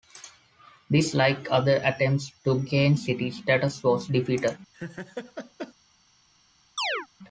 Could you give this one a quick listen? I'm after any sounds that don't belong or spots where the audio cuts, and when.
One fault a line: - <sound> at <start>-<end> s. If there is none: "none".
- laugh at 4.7-5.7 s
- chirp at 6.8-7.1 s